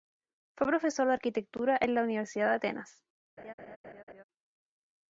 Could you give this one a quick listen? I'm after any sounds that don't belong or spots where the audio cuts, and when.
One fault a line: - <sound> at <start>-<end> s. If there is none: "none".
- laugh at 3.4-4.2 s